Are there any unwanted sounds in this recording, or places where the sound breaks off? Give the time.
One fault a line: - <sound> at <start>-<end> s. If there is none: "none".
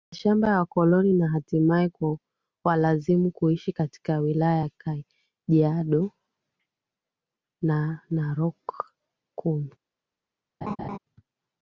- laugh at 10.6-11.0 s